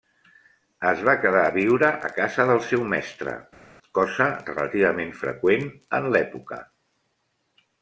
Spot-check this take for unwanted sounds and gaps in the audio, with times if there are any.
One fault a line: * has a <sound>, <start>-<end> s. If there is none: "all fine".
all fine